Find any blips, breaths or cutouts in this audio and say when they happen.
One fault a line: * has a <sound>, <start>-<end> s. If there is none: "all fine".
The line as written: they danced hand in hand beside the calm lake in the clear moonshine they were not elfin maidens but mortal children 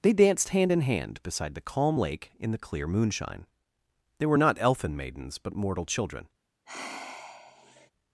* has a sigh, 6.7-7.9 s